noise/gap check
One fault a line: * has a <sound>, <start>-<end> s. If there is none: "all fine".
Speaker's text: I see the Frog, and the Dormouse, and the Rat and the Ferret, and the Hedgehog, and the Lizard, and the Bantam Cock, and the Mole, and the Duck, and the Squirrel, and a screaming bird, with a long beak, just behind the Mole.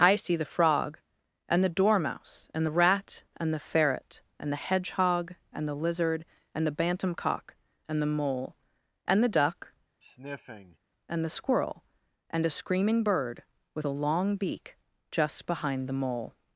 * has a sniff, 10.0-10.8 s